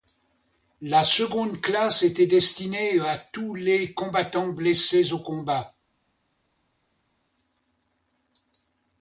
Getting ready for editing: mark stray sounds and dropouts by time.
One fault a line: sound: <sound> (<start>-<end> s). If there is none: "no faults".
no faults